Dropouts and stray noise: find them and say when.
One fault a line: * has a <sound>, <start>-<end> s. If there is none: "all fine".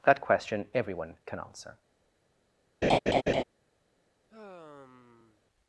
* has a laugh, 2.8-3.4 s
* has a sigh, 4.3-5.4 s